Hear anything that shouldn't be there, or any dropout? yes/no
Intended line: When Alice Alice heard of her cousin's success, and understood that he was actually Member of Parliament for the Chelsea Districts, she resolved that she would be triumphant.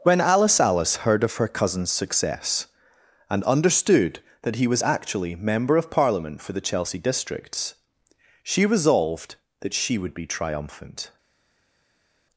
no